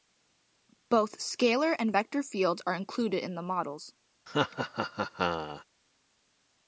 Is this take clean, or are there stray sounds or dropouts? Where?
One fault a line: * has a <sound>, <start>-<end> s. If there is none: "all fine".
* has a laugh, 4.3-5.6 s